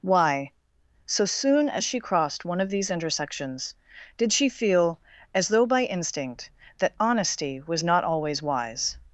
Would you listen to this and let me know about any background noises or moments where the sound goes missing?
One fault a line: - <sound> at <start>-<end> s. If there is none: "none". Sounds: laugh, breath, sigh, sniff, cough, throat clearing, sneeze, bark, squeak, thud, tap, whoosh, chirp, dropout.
none